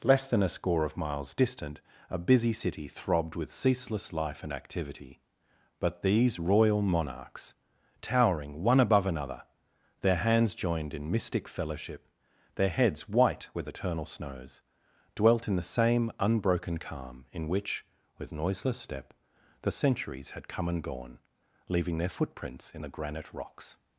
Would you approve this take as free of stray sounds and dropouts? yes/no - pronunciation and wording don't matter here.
yes